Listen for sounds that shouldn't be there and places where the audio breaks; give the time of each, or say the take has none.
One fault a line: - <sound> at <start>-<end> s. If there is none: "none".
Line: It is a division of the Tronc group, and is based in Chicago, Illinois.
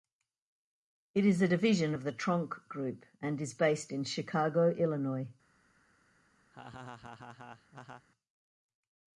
- laugh at 6.5-8.1 s